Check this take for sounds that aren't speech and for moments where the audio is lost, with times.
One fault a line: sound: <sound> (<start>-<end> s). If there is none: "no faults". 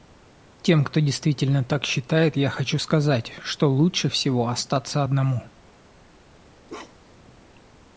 sound: bark (6.7-7.3 s)